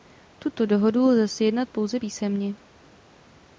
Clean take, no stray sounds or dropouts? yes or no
yes